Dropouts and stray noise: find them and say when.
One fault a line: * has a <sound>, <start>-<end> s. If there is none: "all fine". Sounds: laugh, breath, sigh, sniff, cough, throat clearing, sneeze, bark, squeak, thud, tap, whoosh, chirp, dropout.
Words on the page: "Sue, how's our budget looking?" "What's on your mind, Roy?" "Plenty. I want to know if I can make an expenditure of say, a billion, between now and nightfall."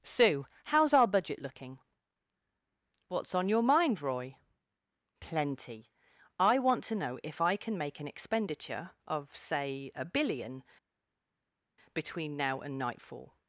all fine